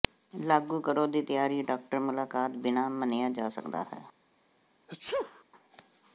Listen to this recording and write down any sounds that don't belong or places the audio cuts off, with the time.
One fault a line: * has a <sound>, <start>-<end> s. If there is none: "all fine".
* has a sneeze, 4.9-5.4 s